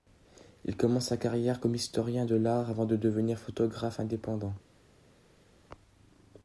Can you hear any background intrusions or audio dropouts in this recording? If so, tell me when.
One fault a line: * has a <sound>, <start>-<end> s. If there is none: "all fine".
all fine